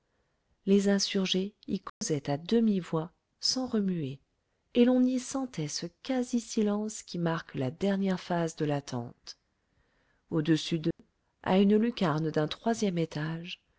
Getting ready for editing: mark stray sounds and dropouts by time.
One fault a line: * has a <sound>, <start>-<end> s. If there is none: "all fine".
* has a dropout, 1.9-2.0 s
* has a dropout, 10.9-11.0 s